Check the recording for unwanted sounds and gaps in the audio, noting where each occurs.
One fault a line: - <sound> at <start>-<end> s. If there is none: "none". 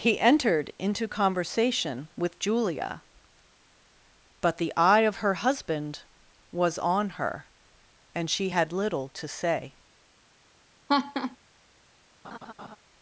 - laugh at 10.9-11.4 s
- laugh at 12.2-12.8 s